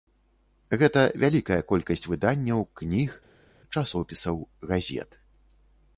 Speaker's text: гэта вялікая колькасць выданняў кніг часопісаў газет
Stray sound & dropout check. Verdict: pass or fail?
pass